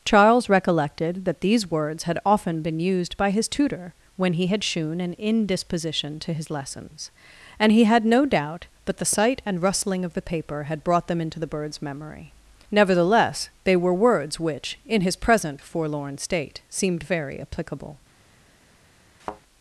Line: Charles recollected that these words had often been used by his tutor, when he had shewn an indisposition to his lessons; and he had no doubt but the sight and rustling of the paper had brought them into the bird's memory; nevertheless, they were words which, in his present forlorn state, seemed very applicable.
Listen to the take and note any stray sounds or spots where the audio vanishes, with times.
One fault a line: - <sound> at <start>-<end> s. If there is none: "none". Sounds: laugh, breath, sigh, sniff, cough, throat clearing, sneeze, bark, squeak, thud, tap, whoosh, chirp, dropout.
- thud at 19.2-19.4 s